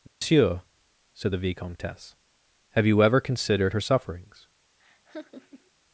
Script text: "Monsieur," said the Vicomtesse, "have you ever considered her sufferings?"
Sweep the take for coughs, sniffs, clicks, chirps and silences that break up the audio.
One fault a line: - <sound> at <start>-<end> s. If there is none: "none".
- dropout at 0.1-0.2 s
- laugh at 4.8-5.7 s